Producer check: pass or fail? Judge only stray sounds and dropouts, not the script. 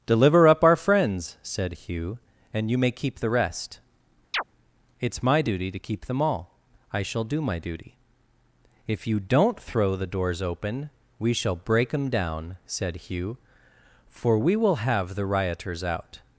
fail